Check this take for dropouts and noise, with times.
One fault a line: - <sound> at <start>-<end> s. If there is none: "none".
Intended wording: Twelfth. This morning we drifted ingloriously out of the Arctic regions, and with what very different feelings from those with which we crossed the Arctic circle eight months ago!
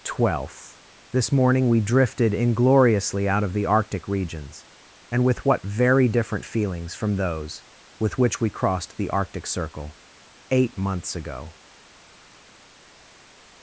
none